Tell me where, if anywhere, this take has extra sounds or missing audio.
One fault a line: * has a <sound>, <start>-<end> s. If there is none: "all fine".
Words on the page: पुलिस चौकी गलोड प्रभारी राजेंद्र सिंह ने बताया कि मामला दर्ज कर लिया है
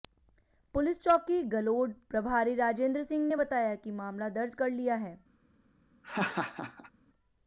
* has a laugh, 6.0-6.9 s